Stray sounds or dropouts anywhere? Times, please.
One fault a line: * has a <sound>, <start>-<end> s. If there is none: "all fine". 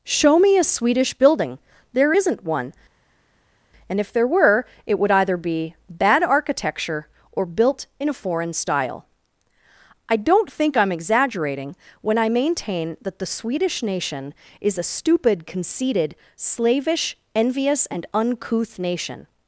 all fine